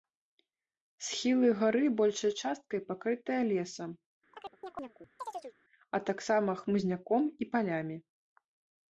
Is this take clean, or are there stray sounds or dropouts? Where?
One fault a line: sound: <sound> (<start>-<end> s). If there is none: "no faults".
sound: chirp (4.3-5.6 s)